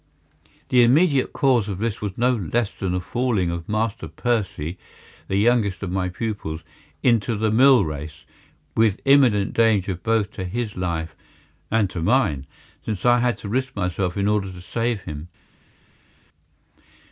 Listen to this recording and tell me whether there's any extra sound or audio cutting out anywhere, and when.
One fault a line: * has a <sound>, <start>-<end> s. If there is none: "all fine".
all fine